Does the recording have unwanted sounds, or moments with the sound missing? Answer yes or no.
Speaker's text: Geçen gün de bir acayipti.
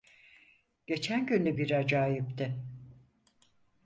no